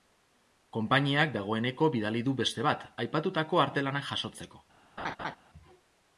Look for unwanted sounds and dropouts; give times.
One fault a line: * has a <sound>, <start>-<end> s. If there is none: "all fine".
* has a laugh, 5.0-5.4 s